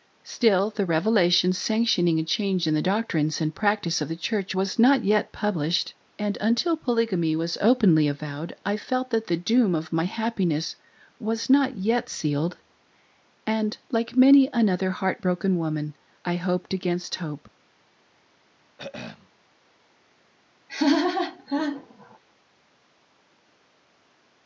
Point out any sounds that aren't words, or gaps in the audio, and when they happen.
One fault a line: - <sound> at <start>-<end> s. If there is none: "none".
- throat clearing at 18.8-19.3 s
- laugh at 20.7-22.2 s